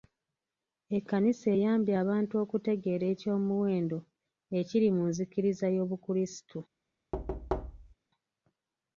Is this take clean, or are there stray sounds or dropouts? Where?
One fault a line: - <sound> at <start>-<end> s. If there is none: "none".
- thud at 7.1-7.9 s